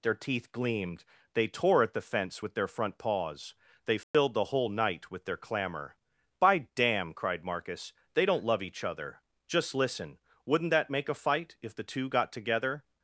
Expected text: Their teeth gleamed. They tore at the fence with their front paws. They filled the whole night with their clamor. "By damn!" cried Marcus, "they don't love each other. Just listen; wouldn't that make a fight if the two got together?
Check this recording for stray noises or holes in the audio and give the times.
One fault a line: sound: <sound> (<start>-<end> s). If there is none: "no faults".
sound: dropout (4.0-4.1 s)